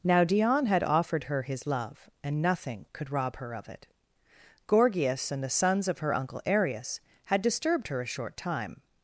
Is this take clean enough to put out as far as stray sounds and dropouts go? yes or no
yes